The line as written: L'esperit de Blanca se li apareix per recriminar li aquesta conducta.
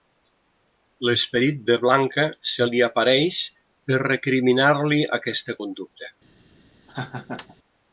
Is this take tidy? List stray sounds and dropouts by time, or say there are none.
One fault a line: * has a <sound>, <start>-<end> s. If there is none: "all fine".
* has a laugh, 6.9-7.6 s